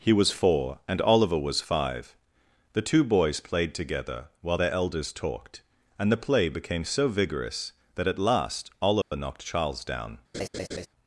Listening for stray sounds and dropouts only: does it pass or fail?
fail